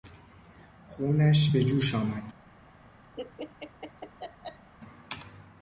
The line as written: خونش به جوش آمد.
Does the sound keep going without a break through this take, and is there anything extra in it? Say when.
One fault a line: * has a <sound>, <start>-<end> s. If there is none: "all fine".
* has a laugh, 3.2-4.7 s